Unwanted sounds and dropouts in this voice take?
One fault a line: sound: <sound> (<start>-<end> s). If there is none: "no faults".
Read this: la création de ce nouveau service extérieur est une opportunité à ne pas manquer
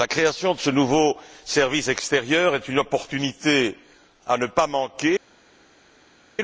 no faults